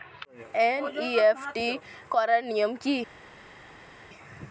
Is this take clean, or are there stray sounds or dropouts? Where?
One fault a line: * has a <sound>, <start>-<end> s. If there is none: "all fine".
all fine